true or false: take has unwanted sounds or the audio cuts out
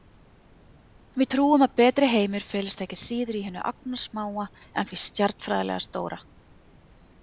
false